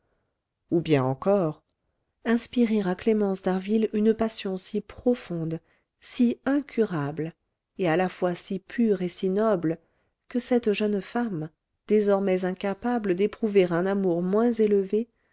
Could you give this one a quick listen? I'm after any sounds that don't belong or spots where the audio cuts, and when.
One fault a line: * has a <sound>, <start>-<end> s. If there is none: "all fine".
all fine